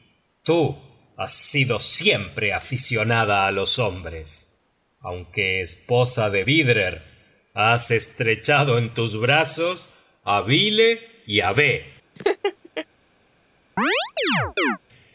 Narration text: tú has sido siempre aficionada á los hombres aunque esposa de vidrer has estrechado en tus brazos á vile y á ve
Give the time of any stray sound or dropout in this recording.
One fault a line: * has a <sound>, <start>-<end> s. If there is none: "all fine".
* has a laugh, 12.2-12.9 s
* has a chirp, 13.8-14.8 s